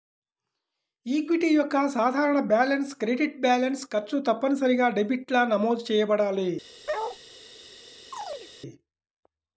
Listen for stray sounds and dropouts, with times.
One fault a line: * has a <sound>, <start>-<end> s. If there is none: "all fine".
* has a bark, 6.9-7.2 s
* has a chirp, 8.1-8.5 s